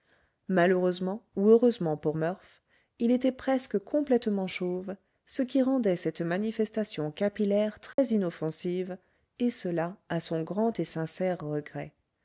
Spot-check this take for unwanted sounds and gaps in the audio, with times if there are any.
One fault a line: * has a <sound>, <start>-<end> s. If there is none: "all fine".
* has a dropout, 7.9-8.0 s